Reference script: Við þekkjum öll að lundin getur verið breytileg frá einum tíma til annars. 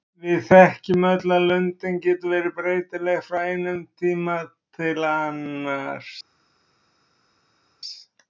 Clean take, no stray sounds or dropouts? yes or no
yes